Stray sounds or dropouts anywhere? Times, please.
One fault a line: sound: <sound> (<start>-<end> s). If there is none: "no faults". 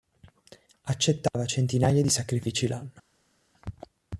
no faults